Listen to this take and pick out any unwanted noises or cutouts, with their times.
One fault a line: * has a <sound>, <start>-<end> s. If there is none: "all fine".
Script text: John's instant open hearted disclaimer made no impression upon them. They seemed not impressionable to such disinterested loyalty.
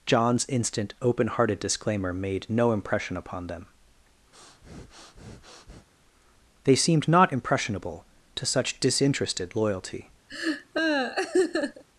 * has a breath, 4.3-5.9 s
* has a laugh, 10.3-11.8 s